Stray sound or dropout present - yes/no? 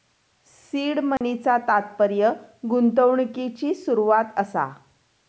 yes